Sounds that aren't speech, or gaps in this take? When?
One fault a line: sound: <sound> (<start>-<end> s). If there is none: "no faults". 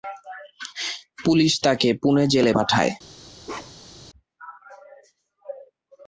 sound: bark (3.4-4.0 s)